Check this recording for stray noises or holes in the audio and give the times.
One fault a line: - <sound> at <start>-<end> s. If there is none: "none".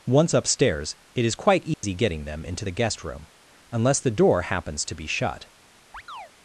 - dropout at 1.7-1.8 s
- chirp at 5.9-6.3 s